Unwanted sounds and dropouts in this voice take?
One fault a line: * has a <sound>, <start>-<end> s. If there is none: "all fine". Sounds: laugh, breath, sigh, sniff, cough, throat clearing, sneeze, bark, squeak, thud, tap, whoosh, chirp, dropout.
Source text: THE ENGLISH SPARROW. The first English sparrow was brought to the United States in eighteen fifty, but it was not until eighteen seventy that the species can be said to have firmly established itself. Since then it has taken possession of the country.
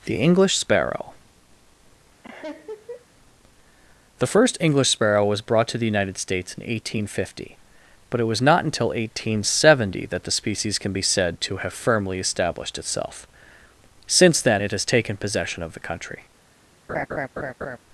* has a laugh, 2.2-3.1 s
* has a laugh, 16.9-17.8 s